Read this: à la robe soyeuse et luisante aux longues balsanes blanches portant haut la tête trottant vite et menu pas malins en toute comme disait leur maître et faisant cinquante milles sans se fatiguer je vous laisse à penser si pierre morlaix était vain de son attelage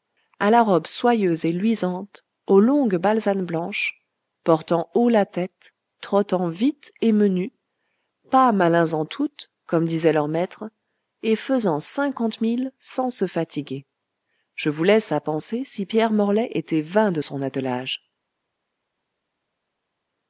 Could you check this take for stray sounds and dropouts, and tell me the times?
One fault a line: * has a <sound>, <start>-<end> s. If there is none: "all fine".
all fine